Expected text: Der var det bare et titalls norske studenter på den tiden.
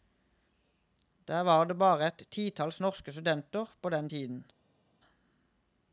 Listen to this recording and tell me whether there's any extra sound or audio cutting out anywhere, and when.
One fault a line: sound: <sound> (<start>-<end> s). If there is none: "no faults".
no faults